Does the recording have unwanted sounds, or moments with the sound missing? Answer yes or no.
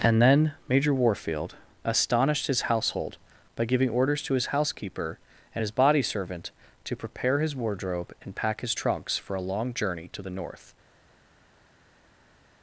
no